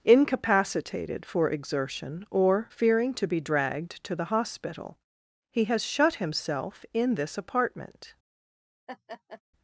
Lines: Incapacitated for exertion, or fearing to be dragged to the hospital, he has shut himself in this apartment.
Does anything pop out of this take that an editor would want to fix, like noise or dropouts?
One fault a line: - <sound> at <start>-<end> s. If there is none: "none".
- laugh at 8.9-9.4 s